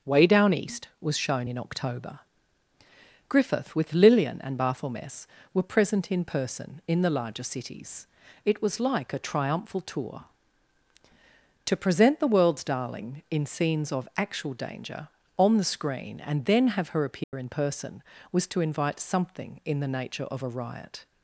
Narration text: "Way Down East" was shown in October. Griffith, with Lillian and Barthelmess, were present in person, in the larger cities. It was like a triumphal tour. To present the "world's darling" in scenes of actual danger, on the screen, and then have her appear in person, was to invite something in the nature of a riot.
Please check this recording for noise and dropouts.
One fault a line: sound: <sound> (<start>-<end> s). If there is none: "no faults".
sound: dropout (17.2-17.3 s)